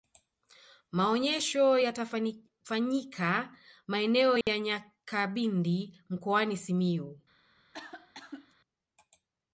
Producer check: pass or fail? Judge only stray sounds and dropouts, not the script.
fail